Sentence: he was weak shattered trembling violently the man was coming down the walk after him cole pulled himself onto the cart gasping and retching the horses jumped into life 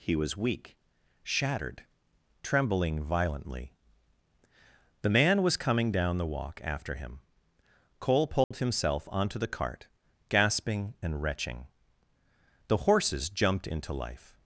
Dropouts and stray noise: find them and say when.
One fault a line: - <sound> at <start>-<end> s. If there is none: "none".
- dropout at 8.4-8.5 s